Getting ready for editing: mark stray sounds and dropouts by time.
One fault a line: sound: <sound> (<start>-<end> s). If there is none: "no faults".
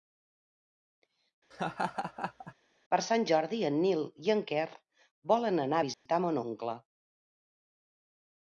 sound: laugh (1.5-2.5 s)
sound: dropout (5.9-6.1 s)